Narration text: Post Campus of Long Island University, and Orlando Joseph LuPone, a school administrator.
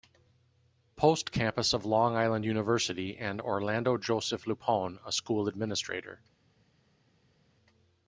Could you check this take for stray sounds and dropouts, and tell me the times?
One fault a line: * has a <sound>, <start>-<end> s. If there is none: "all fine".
all fine